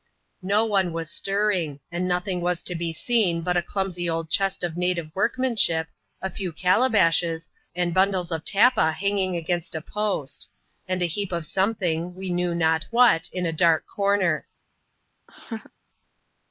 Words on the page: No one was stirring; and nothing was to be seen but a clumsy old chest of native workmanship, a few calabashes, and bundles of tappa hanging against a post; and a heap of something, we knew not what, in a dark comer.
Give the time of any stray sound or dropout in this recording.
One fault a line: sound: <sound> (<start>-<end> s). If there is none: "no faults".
sound: laugh (15.3-15.7 s)